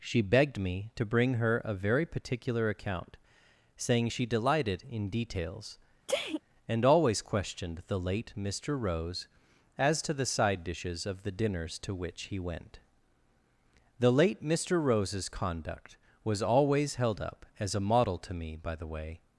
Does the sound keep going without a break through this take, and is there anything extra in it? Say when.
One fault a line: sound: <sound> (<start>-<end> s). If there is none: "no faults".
sound: sneeze (6.1-6.4 s)